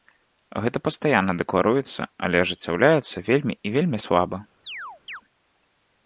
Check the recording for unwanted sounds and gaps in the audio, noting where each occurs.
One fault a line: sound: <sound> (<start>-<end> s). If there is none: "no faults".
sound: chirp (4.6-5.2 s)